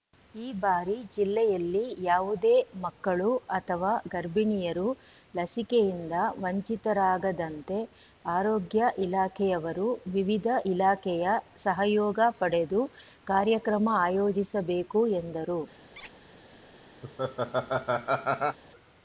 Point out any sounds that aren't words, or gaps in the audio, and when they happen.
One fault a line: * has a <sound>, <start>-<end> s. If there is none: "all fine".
* has a squeak, 15.9-16.1 s
* has a laugh, 17.0-18.6 s